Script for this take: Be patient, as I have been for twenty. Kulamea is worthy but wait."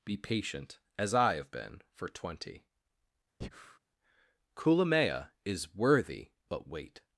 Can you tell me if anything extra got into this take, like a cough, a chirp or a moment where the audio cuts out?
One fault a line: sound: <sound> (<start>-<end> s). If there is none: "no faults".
sound: breath (3.4-3.8 s)